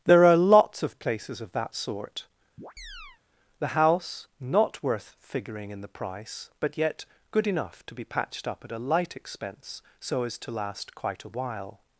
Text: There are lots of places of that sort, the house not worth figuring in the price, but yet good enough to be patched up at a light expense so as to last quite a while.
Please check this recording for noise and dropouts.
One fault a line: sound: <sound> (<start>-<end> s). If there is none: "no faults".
sound: chirp (2.6-3.2 s)